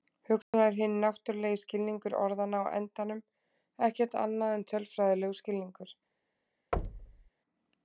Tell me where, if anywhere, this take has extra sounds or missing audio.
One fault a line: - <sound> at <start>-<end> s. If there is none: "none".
- dropout at 0.4-0.5 s
- thud at 6.7-7.3 s